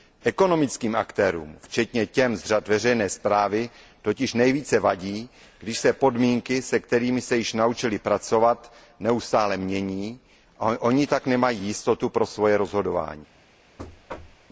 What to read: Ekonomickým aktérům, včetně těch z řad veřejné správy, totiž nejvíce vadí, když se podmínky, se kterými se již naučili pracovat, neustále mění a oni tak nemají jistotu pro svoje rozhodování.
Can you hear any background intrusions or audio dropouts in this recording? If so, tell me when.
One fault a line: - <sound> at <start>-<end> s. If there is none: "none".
- thud at 13.8-14.5 s